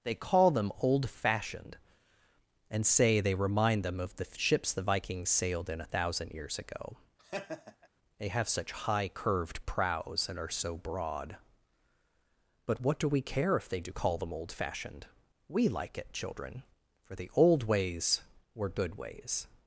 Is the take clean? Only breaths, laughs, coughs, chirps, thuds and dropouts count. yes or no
no